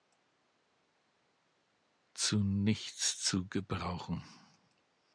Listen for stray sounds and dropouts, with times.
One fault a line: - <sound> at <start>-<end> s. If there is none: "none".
none